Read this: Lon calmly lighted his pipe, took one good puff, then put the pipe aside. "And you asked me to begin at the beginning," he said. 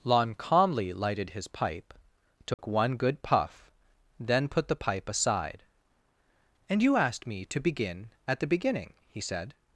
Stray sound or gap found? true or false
true